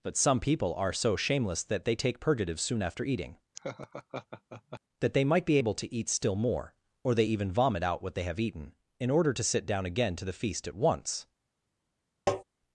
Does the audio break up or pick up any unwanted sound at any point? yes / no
yes